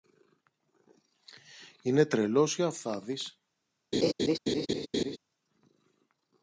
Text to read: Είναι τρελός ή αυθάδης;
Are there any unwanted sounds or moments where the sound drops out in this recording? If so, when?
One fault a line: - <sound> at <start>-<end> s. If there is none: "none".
- laugh at 3.9-5.2 s